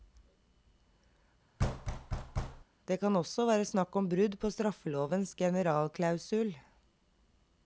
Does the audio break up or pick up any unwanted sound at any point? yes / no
yes